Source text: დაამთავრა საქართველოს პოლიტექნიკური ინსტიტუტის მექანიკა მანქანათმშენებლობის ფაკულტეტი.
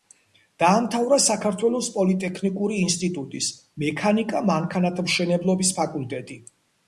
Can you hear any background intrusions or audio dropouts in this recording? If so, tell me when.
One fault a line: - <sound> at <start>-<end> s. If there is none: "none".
none